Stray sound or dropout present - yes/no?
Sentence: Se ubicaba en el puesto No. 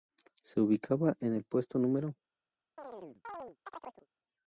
yes